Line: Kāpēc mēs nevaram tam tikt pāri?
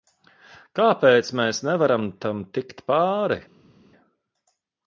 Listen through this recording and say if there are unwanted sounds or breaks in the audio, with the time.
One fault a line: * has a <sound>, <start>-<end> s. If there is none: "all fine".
all fine